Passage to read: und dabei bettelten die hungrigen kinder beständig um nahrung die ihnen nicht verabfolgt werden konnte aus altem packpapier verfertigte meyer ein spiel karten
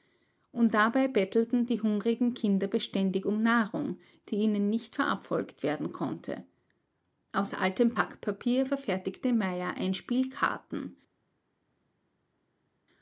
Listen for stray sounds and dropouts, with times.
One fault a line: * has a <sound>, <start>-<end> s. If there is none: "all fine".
all fine